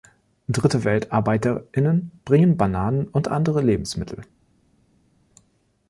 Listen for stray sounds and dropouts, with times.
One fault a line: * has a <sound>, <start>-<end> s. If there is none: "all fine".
all fine